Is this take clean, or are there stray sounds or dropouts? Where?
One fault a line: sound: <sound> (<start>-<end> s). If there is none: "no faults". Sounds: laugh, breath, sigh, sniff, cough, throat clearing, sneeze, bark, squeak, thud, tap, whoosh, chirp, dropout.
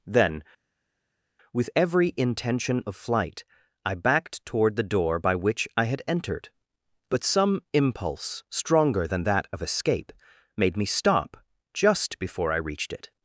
no faults